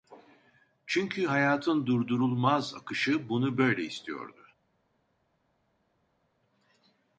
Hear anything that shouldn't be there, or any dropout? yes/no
no